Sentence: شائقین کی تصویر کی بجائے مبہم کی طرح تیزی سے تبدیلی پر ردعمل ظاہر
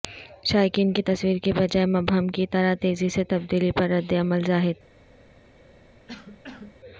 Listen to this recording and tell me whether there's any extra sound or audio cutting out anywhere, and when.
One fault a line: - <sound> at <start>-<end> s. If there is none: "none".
- cough at 6.1-6.8 s